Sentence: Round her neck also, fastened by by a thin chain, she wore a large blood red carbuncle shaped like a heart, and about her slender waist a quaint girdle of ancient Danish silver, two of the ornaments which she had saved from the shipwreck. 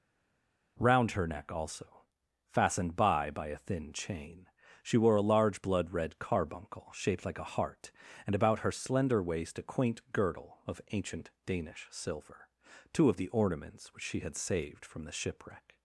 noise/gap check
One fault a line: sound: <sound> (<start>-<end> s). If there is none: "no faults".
no faults